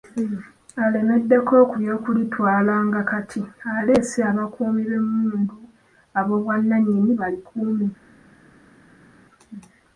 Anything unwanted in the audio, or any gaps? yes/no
no